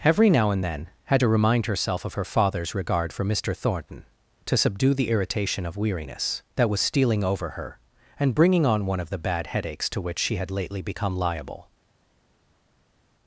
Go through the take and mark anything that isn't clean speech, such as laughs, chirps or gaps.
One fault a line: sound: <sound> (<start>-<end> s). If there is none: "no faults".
no faults